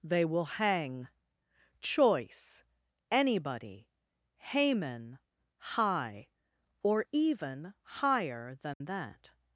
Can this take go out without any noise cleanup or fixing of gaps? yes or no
no